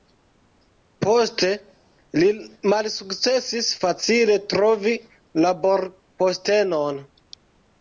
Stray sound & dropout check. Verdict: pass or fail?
pass